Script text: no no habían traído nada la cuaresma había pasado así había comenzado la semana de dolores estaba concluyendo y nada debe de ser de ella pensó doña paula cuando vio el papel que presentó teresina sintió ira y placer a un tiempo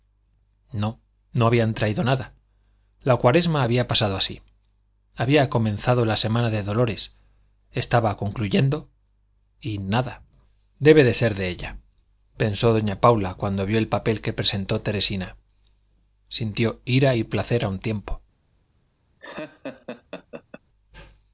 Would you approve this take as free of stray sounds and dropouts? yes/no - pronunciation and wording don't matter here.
no